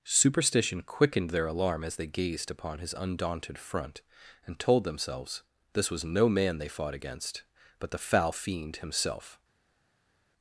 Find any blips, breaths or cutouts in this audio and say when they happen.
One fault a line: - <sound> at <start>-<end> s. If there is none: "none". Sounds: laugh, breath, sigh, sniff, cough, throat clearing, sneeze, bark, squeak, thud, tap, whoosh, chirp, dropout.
none